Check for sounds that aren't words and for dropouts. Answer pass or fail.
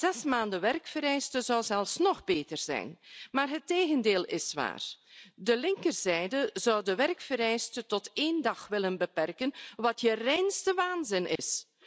fail